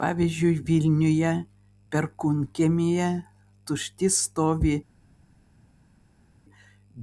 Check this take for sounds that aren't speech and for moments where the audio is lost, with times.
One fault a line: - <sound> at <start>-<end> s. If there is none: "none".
none